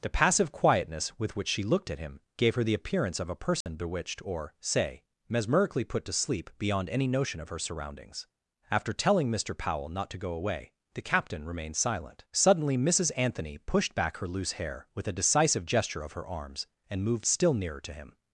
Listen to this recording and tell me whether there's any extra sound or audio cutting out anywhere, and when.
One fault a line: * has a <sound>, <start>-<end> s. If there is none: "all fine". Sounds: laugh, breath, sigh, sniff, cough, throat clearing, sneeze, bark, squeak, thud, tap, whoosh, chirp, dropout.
* has a dropout, 3.6-3.7 s